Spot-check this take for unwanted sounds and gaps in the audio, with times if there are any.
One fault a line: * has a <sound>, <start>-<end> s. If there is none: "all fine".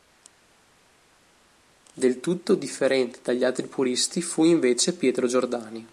all fine